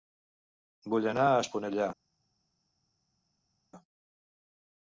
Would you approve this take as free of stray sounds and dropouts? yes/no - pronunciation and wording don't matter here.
yes